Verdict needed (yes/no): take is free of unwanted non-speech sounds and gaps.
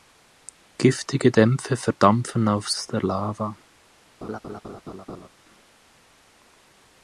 no